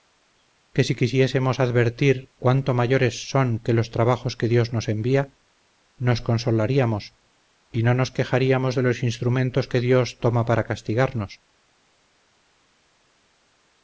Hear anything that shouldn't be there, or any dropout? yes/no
no